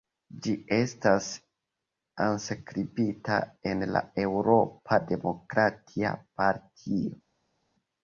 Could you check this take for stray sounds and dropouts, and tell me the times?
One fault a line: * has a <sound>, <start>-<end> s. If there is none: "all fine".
all fine